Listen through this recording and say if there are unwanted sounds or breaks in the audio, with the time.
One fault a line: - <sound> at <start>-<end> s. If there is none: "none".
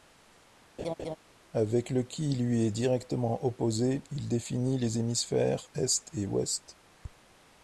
- laugh at 0.8-1.2 s